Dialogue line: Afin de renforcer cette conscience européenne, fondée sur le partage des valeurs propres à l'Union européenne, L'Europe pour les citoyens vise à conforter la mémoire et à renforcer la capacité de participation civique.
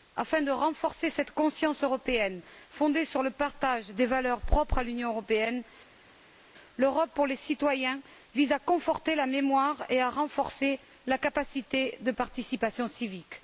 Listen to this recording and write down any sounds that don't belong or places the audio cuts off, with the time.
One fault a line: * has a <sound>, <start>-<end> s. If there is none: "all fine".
all fine